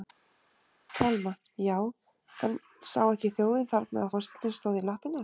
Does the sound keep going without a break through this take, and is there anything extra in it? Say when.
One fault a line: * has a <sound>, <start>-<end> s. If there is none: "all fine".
all fine